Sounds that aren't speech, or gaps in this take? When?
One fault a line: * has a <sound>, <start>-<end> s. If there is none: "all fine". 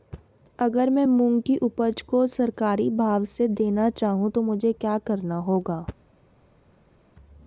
all fine